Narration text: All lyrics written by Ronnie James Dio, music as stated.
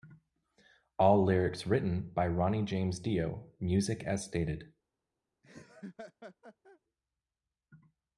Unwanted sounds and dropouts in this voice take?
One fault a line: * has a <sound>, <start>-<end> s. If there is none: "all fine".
* has a laugh, 5.4-6.8 s